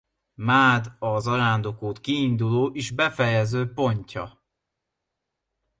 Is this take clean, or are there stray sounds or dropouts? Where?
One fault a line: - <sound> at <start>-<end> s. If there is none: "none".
none